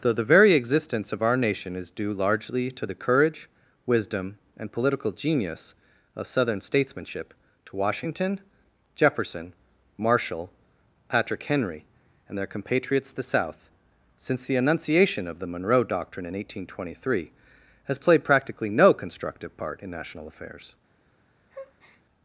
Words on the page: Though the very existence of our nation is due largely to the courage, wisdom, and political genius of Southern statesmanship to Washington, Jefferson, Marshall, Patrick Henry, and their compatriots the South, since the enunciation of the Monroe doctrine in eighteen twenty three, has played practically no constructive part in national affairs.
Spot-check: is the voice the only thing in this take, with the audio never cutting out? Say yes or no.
no